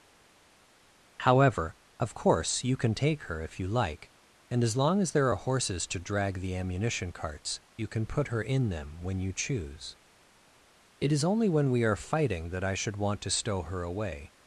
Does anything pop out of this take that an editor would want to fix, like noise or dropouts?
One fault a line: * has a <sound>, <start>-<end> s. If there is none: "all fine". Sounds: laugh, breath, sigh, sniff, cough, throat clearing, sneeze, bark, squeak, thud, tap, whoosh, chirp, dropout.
all fine